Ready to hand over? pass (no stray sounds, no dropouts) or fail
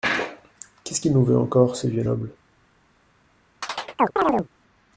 fail